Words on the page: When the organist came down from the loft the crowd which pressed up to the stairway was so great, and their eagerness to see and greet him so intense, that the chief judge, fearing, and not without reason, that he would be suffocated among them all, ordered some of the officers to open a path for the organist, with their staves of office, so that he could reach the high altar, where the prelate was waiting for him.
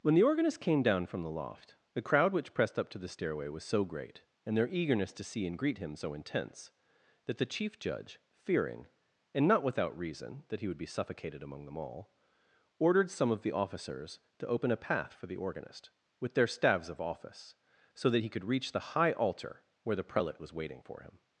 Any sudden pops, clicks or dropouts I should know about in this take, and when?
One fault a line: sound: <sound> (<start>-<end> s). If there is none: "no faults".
no faults